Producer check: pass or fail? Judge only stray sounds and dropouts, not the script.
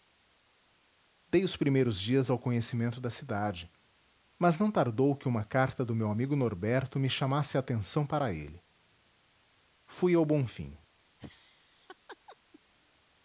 fail